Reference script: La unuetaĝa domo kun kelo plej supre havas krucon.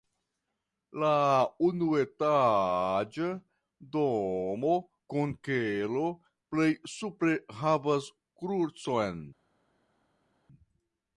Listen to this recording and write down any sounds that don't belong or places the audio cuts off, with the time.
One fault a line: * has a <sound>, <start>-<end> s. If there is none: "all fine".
all fine